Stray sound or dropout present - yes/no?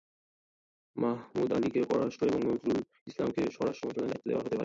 no